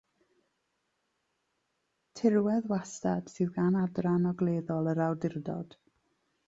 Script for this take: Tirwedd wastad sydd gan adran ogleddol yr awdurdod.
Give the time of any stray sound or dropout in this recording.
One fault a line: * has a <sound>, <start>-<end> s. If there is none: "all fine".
all fine